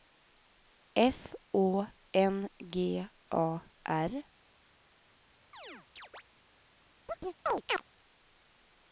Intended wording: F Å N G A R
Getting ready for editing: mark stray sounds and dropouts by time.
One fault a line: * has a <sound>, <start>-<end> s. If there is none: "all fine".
* has a chirp, 5.5-6.2 s
* has a chirp, 7.1-7.8 s